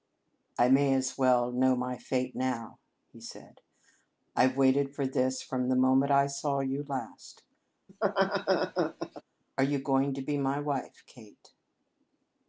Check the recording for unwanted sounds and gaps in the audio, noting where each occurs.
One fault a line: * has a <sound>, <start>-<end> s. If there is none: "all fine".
* has a laugh, 7.9-9.2 s